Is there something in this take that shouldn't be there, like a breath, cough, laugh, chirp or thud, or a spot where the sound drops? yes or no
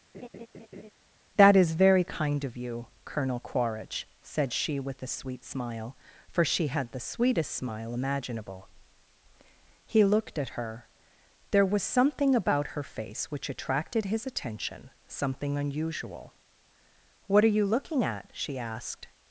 yes